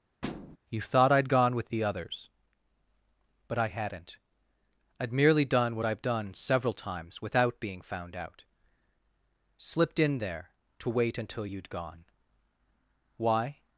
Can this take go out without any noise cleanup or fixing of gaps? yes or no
no